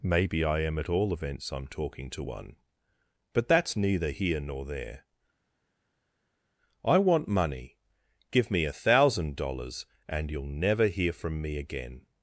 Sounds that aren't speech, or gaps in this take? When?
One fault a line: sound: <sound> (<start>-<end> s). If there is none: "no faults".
no faults